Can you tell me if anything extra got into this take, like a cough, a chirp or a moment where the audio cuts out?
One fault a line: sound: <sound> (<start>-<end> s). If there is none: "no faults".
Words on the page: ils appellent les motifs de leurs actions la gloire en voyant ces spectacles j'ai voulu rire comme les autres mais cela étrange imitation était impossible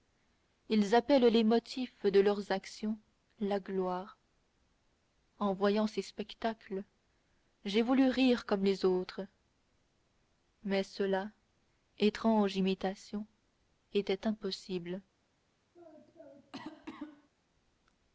sound: cough (15.7-17.3 s)